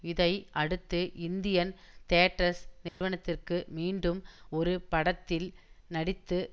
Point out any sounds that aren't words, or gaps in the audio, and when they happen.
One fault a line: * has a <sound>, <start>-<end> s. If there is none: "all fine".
* has a dropout, 2.9-3.0 s